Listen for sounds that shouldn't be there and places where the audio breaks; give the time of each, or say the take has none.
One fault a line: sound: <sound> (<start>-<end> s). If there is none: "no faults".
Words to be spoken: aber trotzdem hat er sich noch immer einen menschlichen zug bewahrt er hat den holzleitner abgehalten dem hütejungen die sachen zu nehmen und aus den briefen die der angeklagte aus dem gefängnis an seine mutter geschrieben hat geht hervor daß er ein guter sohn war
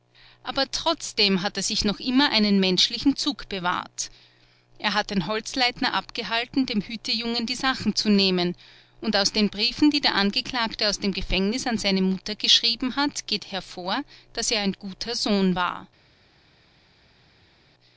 no faults